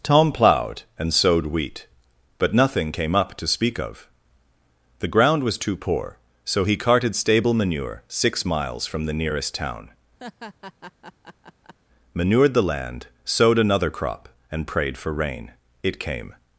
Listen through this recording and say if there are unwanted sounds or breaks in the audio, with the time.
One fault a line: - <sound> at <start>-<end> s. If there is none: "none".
- laugh at 10.2-11.7 s